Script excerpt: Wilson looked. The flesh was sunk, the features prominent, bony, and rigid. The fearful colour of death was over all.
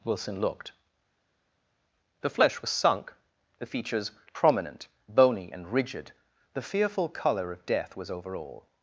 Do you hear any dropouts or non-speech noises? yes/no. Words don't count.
no